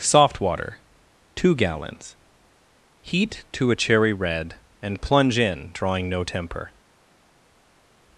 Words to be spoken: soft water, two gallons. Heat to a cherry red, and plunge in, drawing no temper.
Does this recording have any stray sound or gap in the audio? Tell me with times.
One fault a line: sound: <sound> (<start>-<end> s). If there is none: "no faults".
no faults